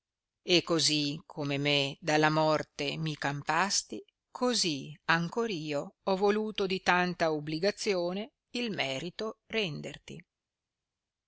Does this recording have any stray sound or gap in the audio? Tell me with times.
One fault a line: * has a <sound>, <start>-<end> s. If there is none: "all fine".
all fine